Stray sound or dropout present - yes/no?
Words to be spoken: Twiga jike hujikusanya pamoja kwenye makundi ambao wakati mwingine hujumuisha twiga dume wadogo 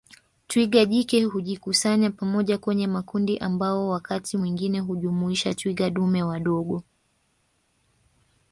no